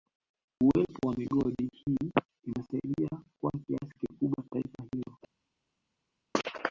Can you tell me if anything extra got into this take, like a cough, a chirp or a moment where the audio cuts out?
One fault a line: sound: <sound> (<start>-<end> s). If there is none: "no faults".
no faults